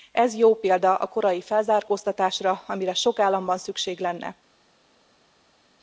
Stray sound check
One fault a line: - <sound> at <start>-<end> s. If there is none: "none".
none